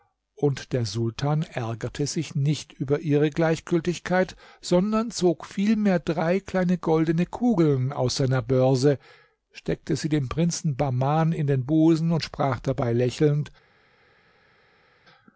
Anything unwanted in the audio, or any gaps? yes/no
no